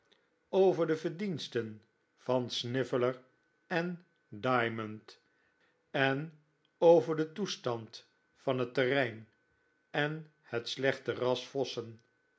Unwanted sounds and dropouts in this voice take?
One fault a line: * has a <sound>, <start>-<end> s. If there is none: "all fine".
all fine